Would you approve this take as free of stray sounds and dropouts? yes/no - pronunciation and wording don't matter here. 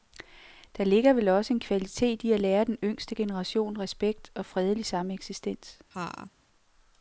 no